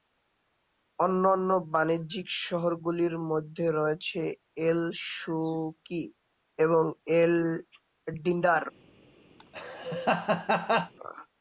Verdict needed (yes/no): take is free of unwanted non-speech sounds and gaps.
no